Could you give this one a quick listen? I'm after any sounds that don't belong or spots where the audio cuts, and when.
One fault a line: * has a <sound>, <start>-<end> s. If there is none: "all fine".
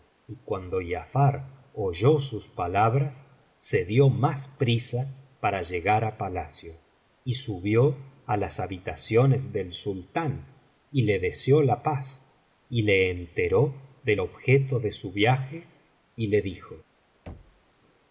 * has a thud, 17.3-17.6 s